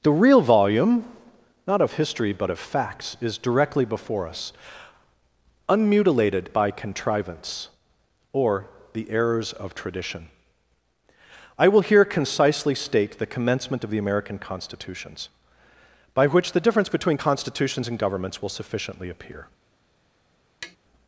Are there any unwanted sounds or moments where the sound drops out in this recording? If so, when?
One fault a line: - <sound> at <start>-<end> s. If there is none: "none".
- tap at 20.6-20.8 s